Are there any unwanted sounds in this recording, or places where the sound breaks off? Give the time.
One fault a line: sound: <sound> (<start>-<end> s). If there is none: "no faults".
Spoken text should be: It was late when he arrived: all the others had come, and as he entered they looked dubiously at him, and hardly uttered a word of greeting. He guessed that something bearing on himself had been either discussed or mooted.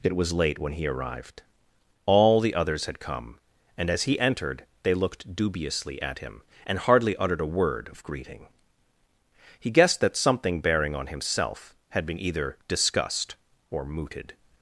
no faults